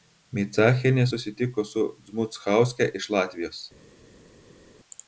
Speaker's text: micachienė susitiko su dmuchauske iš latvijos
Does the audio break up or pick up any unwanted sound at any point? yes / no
no